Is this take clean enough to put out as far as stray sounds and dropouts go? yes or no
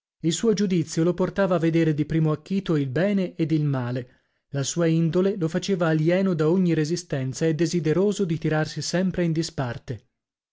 yes